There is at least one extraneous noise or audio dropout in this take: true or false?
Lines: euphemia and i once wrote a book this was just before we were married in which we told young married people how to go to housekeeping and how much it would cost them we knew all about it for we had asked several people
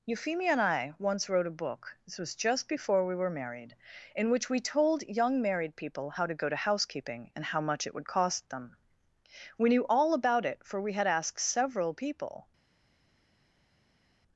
false